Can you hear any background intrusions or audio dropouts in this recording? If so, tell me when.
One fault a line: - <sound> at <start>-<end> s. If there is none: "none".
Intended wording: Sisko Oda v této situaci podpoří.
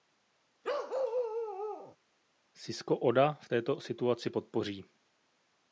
- bark at 0.6-2.0 s